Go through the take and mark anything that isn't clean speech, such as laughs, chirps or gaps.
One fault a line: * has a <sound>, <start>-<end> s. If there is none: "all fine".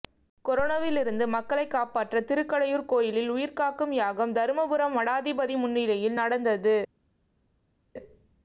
all fine